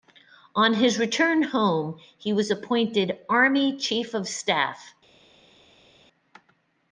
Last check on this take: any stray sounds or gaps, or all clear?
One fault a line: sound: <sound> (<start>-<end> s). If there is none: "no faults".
no faults